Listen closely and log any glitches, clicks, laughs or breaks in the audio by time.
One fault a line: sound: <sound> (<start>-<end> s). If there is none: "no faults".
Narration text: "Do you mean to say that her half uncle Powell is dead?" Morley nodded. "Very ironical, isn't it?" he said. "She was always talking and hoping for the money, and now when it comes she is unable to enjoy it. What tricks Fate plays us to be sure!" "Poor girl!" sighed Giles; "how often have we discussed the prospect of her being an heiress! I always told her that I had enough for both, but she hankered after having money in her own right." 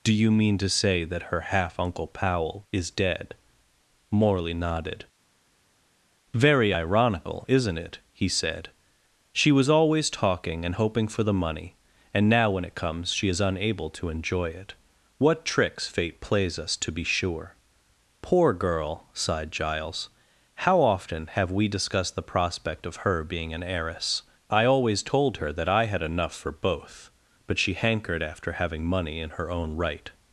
no faults